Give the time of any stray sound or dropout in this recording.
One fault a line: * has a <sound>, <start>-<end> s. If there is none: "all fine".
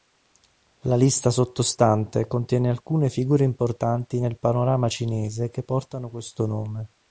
all fine